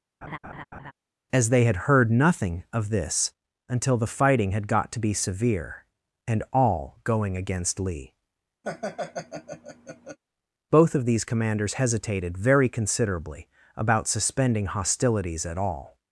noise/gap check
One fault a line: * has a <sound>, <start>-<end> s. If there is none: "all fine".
* has a laugh, 0.2-0.9 s
* has a laugh, 8.6-10.2 s